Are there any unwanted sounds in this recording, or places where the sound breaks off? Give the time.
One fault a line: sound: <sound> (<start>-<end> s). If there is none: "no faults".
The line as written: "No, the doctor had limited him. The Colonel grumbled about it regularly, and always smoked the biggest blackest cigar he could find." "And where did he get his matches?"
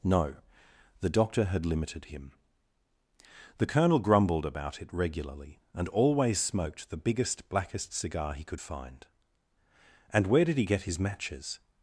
no faults